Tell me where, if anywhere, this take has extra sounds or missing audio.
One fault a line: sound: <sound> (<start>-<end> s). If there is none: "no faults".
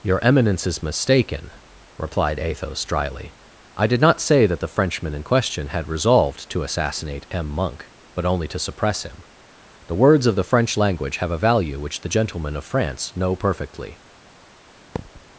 sound: thud (15.0-15.2 s)